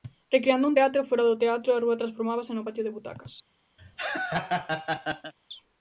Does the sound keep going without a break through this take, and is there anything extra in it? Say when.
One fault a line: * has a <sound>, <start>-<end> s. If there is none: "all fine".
* has a laugh, 3.8-5.3 s